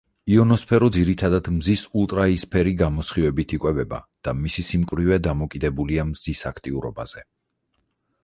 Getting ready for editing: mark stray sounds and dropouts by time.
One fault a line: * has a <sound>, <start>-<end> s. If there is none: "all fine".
* has a dropout, 4.9-4.9 s